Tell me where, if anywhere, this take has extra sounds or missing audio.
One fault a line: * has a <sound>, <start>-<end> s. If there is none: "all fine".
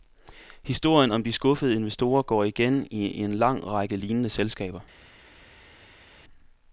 all fine